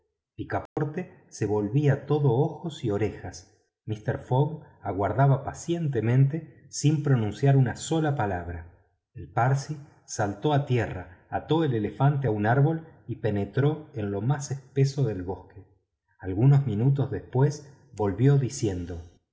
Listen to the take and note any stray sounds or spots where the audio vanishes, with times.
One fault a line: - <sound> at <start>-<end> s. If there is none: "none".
- dropout at 0.7-0.8 s